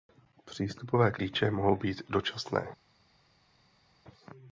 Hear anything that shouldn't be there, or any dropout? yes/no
no